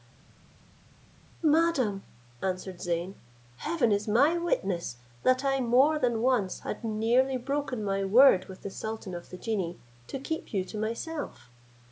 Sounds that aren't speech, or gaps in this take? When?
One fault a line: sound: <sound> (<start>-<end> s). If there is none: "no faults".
no faults